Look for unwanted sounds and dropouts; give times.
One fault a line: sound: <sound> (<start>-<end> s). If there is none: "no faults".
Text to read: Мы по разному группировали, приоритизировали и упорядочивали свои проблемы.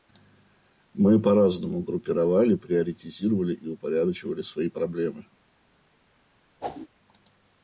sound: whoosh (6.6-6.9 s)